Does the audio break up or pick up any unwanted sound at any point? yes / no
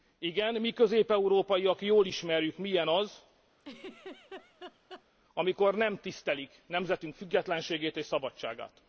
yes